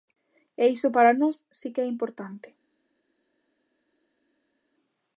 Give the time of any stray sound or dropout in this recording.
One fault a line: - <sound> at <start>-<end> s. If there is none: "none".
none